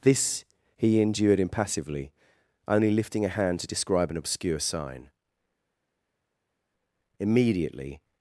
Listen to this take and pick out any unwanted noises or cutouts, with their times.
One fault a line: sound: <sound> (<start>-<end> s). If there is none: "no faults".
no faults